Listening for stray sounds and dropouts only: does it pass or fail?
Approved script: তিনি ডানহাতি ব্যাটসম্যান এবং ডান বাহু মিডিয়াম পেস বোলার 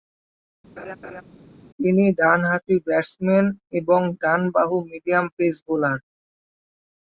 fail